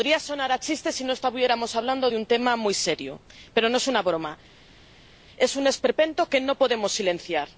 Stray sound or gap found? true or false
false